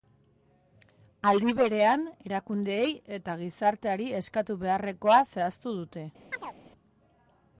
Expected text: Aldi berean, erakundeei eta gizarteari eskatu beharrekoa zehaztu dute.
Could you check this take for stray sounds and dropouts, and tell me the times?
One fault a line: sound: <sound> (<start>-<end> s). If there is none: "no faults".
sound: chirp (6.3-6.5 s)